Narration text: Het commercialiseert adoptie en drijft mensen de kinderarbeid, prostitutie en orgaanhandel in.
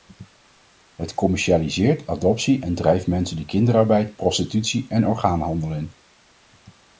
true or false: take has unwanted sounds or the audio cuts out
false